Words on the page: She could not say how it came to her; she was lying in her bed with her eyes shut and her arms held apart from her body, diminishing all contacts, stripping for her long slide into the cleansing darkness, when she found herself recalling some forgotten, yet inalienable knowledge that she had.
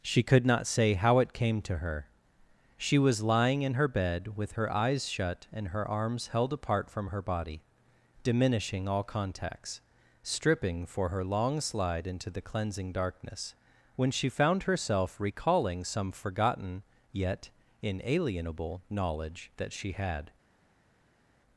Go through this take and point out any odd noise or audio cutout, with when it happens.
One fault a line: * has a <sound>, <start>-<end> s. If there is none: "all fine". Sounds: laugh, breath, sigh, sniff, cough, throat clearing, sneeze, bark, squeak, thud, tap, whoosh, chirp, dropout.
all fine